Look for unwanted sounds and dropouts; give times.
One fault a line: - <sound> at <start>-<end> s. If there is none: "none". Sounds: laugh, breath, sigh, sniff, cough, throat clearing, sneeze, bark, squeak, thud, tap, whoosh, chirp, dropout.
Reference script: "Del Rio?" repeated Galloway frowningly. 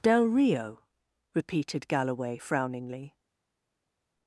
none